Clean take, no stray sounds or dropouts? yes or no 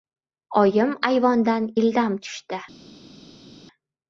yes